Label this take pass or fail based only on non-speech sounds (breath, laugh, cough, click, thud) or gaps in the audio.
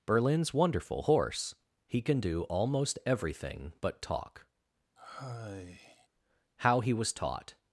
fail